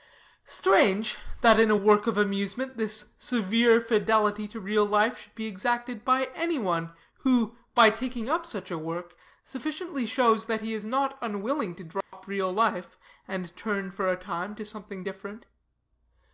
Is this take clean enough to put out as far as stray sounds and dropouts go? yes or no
no